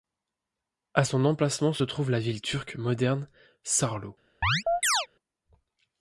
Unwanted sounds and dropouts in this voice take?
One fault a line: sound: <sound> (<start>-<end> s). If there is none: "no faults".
sound: chirp (4.4-5.1 s)